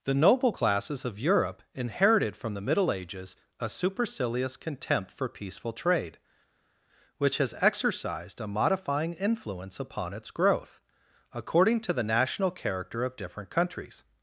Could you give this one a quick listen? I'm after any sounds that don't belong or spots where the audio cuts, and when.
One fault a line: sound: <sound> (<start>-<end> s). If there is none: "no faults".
no faults